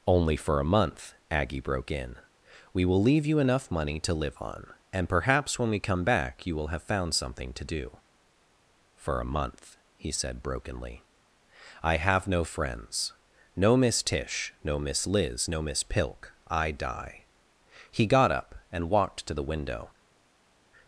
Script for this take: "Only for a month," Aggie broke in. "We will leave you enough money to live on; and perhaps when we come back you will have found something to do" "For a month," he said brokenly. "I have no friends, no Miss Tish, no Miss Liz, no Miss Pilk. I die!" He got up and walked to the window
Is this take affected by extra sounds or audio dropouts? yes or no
no